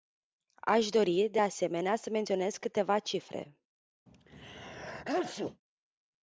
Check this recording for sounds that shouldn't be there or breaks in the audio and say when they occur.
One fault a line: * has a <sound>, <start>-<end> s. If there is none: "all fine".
* has a sneeze, 4.1-5.6 s